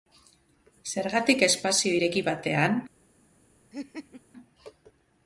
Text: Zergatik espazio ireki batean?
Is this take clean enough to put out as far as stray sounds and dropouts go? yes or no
no